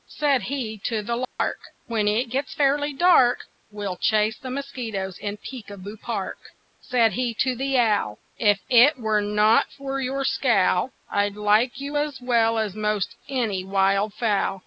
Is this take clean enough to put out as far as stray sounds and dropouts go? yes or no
no